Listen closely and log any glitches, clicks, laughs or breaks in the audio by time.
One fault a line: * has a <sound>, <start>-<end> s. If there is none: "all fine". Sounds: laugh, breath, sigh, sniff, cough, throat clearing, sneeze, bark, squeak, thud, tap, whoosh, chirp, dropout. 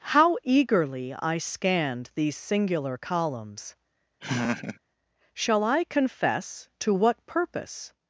* has a laugh, 4.2-4.8 s